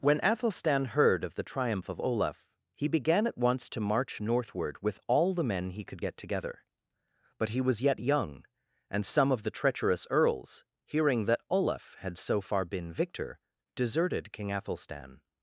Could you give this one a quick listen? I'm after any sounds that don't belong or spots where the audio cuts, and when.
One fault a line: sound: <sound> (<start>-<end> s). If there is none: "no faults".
no faults